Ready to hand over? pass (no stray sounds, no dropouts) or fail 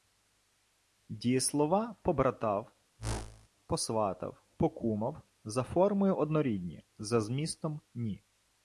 fail